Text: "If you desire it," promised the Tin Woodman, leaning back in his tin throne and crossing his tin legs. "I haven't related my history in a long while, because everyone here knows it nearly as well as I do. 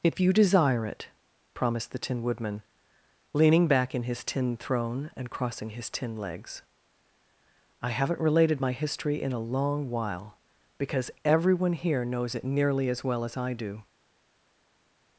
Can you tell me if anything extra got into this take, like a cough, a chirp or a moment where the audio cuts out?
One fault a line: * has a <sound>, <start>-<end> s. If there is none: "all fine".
all fine